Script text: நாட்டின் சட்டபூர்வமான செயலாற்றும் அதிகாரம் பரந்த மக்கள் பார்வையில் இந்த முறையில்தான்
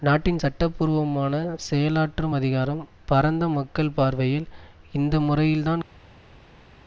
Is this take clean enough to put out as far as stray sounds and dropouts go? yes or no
yes